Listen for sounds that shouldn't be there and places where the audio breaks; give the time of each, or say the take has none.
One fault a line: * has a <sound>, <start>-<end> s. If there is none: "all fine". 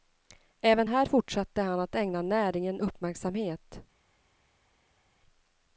all fine